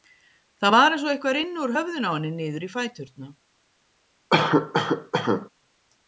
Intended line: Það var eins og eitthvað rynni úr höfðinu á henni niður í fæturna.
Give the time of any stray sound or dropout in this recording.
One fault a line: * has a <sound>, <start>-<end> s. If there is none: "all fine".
* has a cough, 4.3-5.5 s